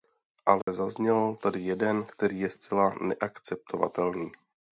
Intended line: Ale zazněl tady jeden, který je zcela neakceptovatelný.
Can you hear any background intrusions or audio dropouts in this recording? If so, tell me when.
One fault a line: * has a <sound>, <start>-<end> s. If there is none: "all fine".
* has a dropout, 0.6-0.7 s